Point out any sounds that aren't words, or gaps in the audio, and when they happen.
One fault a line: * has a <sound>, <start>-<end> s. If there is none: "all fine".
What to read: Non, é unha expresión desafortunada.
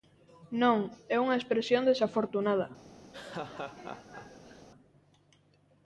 * has a laugh, 3.1-4.7 s